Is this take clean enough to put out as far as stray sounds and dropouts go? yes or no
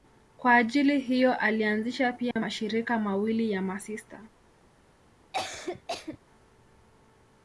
no